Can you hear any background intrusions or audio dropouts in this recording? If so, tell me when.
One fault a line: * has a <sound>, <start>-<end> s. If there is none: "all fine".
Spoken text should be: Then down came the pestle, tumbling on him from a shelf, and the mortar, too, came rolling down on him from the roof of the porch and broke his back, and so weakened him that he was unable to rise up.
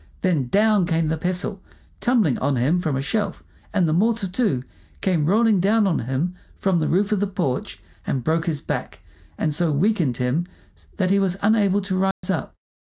* has a dropout, 12.1-12.2 s